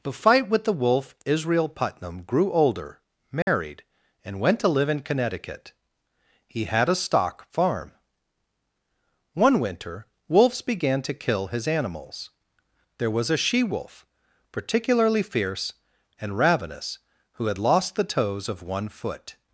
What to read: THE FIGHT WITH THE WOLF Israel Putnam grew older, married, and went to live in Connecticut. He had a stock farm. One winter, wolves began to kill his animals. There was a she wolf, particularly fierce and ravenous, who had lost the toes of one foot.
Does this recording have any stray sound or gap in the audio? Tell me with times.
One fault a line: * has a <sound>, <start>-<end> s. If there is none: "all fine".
* has a dropout, 3.4-3.5 s